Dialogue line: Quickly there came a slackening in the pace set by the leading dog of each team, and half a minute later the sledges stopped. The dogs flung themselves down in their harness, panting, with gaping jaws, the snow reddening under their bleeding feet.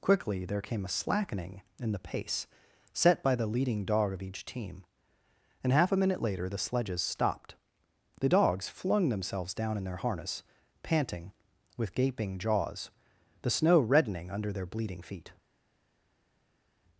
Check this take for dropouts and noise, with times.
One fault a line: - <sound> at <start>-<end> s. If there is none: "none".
none